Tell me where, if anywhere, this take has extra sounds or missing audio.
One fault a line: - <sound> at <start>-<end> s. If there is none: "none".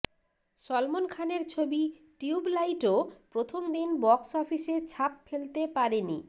none